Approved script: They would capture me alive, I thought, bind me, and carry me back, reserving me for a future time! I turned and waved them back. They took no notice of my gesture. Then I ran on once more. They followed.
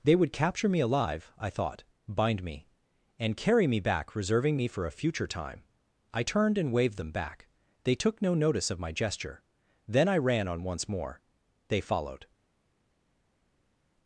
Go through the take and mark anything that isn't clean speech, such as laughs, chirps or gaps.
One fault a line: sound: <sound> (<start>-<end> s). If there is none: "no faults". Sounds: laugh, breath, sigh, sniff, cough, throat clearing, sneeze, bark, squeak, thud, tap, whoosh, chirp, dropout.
no faults